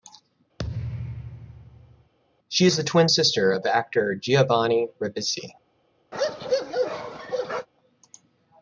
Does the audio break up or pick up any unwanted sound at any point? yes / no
yes